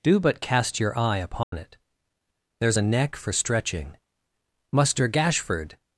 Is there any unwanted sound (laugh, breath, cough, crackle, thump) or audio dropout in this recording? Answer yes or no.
yes